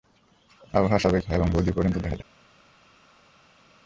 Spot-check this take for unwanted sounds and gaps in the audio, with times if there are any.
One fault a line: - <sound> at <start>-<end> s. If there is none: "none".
none